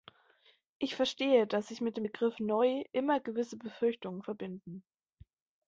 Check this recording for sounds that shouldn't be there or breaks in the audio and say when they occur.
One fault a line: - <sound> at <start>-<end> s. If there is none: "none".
none